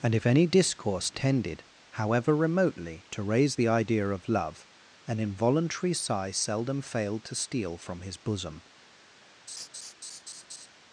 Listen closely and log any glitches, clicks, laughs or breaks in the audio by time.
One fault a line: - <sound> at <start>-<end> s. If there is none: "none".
- laugh at 9.5-10.7 s